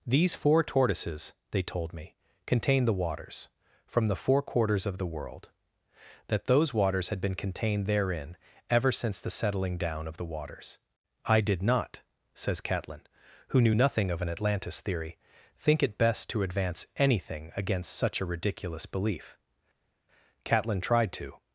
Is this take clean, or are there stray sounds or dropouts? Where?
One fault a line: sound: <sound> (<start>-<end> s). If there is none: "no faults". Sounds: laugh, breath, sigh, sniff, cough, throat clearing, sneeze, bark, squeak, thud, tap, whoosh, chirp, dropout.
no faults